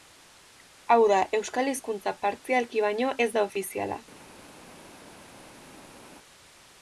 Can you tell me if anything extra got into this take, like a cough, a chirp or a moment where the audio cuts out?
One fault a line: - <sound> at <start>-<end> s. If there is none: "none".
none